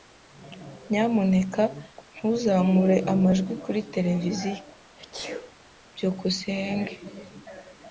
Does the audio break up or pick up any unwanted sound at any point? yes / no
yes